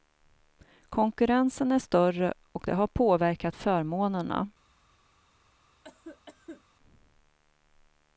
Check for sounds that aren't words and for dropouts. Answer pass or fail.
fail